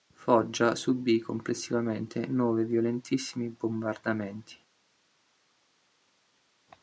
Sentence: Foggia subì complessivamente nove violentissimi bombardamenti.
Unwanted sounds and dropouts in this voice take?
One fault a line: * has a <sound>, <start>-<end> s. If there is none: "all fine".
all fine